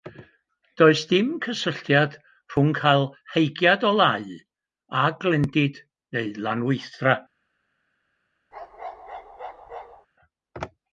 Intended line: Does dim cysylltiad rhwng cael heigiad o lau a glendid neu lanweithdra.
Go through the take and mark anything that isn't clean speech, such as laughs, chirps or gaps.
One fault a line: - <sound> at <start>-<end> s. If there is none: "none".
- bark at 8.5-10.1 s